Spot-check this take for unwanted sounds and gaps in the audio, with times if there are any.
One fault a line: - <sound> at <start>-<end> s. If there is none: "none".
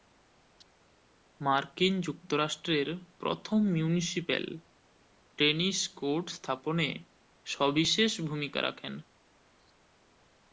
none